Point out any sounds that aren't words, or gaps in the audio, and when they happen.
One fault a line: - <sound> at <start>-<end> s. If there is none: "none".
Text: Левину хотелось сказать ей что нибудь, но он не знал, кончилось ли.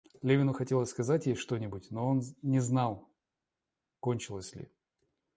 none